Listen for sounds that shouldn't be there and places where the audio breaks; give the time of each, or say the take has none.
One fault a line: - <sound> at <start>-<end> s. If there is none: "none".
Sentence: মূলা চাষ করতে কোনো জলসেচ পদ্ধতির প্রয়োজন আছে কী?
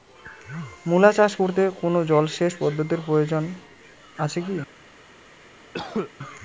- cough at 5.7-6.1 s